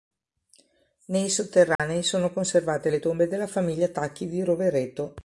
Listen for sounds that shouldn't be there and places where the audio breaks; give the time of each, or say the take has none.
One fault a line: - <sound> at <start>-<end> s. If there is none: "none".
- dropout at 1.8-1.8 s